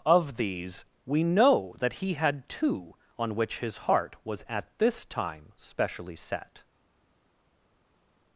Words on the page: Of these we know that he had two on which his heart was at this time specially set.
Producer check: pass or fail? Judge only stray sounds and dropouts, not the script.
pass